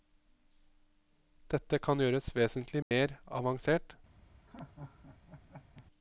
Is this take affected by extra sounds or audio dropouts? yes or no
yes